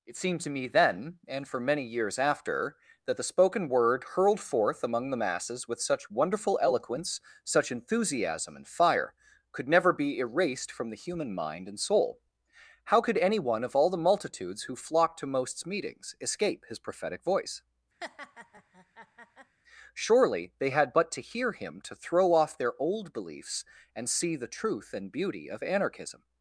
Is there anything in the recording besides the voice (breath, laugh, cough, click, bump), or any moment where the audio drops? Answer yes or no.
yes